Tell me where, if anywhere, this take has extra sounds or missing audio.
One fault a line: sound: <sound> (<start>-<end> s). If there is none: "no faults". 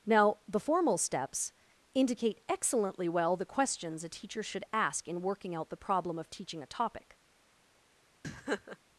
sound: laugh (8.2-8.8 s)